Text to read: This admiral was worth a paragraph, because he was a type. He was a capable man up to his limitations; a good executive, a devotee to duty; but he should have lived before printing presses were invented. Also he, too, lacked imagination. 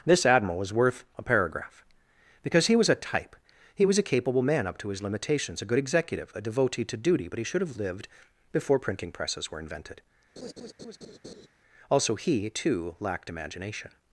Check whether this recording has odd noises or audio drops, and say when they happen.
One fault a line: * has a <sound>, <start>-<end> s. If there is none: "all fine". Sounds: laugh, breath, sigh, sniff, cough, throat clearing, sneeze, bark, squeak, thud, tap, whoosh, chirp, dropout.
* has a laugh, 10.4-11.5 s